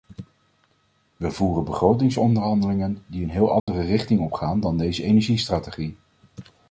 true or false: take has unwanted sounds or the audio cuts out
true